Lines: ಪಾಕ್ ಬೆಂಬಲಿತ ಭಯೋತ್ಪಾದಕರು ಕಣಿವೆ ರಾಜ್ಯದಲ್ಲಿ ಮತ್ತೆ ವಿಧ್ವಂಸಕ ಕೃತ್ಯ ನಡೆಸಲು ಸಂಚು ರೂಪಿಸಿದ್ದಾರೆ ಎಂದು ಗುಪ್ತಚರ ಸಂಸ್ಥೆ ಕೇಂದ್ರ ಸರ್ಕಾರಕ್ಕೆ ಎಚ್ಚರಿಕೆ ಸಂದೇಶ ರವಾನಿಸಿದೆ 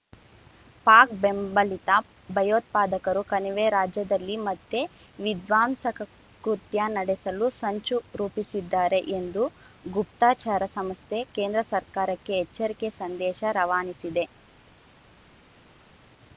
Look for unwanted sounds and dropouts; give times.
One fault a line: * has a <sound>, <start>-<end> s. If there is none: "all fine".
all fine